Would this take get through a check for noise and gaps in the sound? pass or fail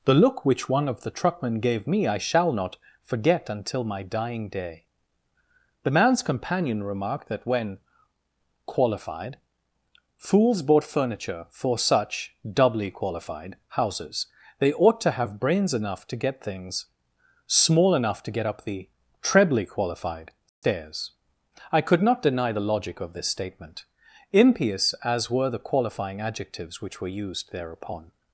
fail